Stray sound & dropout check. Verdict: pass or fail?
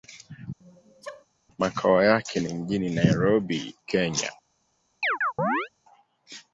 fail